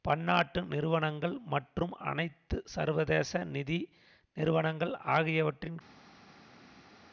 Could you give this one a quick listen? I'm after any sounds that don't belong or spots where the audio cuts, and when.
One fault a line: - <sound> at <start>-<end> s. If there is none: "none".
none